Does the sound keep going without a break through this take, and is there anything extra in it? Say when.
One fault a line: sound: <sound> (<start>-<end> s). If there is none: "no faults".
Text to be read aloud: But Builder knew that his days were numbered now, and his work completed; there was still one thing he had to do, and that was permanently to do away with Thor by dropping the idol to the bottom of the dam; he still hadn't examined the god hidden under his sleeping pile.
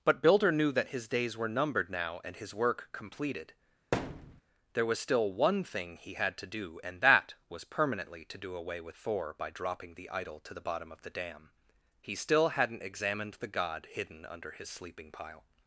sound: thud (3.9-4.4 s)